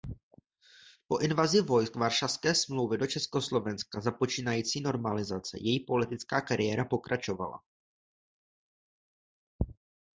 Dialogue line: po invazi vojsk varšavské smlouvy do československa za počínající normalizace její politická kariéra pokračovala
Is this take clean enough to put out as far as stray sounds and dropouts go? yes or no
yes